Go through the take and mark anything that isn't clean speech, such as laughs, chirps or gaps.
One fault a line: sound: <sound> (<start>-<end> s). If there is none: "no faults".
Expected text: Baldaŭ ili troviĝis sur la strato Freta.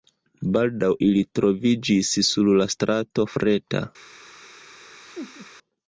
sound: laugh (5.0-5.5 s)